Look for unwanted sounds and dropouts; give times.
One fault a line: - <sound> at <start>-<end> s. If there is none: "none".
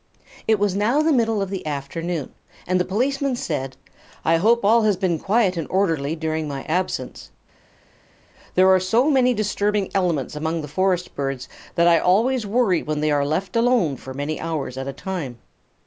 none